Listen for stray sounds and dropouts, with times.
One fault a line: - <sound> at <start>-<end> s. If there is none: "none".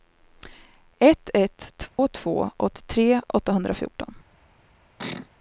- dropout at 1.9-2.0 s
- sneeze at 5.0-5.3 s